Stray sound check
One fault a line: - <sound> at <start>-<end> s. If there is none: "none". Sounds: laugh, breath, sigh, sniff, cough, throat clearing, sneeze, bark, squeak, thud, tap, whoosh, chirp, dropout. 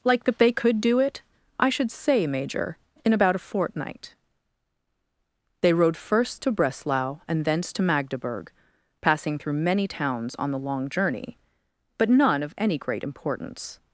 none